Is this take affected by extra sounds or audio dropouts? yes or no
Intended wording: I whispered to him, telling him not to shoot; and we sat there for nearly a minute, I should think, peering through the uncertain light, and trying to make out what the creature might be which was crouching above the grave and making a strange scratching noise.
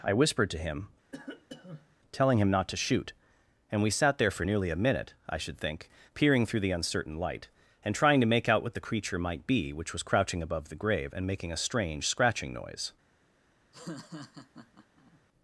yes